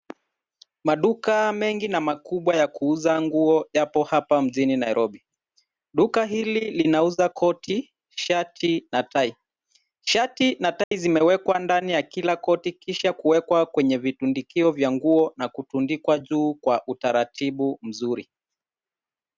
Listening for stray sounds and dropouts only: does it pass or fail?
fail